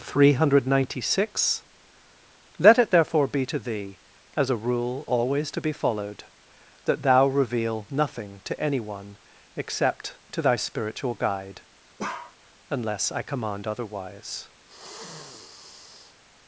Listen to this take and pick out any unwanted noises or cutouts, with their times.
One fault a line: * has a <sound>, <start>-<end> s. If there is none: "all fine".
* has a bark, 12.0-12.4 s
* has a sniff, 14.7-16.2 s